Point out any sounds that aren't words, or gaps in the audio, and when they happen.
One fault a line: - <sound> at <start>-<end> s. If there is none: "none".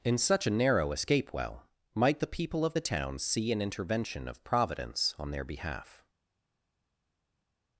none